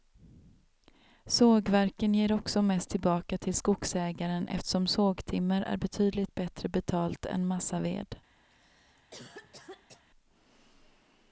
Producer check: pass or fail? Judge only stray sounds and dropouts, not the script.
fail